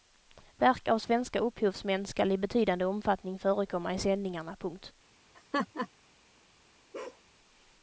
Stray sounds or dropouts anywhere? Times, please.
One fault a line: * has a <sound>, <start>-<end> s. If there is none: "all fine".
* has a laugh, 5.3-5.9 s
* has a bark, 6.9-7.2 s